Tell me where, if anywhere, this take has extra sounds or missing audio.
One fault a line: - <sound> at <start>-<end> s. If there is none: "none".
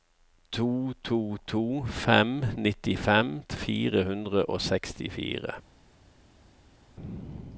none